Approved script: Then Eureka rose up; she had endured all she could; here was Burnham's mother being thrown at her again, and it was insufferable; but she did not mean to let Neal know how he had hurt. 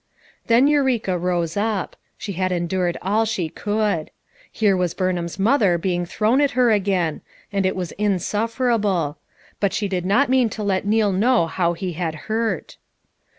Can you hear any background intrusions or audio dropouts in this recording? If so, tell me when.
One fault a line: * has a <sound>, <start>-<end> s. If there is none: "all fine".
all fine